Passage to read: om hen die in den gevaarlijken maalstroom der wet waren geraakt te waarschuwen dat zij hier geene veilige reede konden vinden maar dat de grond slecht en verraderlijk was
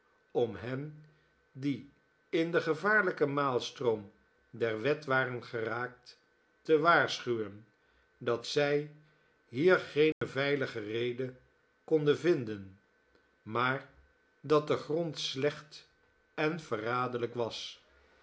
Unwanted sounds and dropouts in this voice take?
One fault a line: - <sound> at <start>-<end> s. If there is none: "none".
- dropout at 10.1-10.2 s